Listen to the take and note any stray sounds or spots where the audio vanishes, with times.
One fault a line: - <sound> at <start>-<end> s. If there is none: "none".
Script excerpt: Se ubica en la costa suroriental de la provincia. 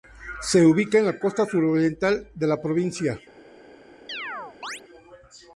- chirp at 4.1-4.8 s